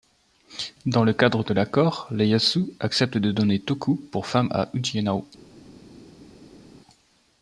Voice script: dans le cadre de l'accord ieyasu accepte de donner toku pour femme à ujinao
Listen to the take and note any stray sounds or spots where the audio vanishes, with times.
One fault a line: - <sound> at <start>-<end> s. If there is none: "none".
none